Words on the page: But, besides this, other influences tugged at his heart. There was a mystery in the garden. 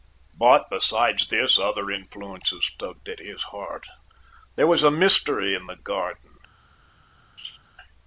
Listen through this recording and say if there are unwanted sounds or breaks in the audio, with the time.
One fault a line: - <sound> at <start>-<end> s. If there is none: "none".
- laugh at 7.4-7.6 s